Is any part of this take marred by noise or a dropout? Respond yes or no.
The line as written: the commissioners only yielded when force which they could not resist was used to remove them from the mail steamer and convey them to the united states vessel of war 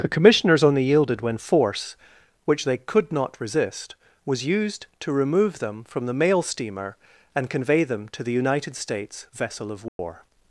yes